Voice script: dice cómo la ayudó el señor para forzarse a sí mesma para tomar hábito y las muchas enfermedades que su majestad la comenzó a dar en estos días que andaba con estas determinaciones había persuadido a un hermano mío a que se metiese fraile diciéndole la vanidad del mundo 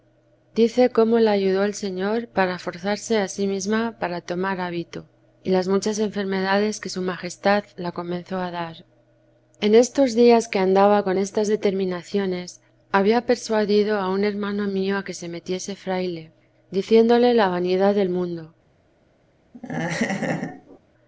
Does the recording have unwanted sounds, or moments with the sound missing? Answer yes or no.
yes